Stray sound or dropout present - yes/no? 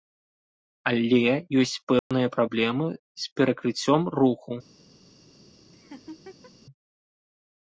yes